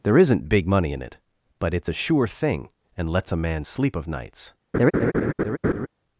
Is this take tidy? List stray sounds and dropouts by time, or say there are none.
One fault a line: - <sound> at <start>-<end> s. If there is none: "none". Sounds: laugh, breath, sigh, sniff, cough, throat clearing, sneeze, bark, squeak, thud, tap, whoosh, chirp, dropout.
- laugh at 4.7-5.9 s